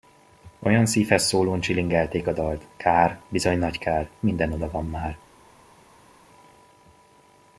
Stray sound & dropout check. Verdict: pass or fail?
pass